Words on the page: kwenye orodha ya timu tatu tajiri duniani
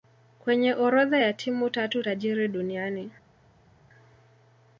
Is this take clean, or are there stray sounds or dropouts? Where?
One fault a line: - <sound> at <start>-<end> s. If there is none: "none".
none